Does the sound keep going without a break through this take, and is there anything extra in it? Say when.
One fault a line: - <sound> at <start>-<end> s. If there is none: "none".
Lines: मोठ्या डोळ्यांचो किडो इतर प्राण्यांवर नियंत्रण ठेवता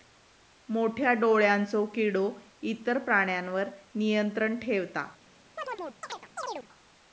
- chirp at 5.6-6.7 s